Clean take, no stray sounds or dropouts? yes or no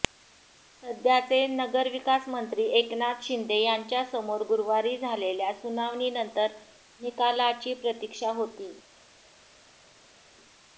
yes